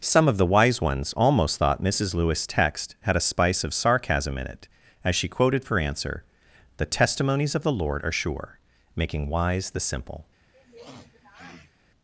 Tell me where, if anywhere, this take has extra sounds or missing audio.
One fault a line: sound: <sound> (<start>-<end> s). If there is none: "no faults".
sound: sniff (10.5-11.7 s)